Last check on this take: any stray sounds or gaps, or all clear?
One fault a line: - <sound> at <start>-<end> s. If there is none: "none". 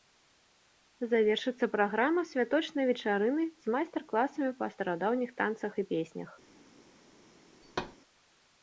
- thud at 7.6-8.0 s